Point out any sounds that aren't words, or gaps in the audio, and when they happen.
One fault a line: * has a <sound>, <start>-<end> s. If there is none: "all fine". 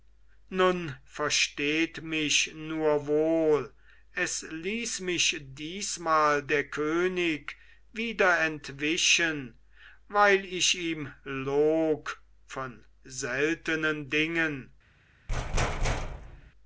* has a thud, 15.3-16.5 s